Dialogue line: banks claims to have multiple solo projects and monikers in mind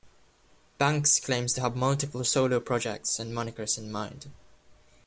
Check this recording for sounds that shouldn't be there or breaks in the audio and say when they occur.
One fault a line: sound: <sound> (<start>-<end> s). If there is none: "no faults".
no faults